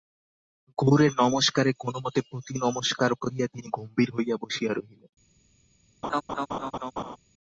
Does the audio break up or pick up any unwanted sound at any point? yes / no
yes